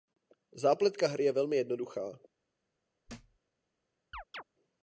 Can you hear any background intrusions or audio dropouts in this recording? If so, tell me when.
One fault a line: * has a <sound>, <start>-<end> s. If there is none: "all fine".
* has a thud, 3.1-3.4 s
* has a chirp, 4.1-4.4 s